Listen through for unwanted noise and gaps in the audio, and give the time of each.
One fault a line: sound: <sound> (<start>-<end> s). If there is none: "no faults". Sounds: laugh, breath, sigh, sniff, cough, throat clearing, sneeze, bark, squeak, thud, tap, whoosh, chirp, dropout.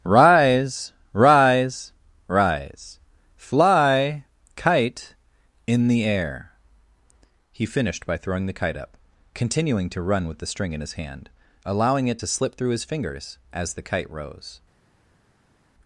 no faults